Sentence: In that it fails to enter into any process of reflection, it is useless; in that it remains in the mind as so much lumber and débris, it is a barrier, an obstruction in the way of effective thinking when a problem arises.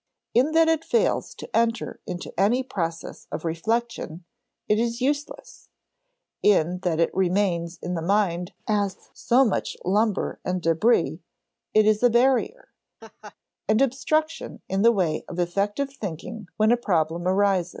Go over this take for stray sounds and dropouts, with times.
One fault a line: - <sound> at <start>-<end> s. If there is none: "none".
- laugh at 13.0-13.4 s